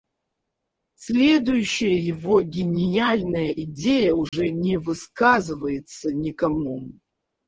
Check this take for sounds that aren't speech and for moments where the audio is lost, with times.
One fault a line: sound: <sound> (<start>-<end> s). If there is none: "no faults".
sound: dropout (4.3-4.3 s)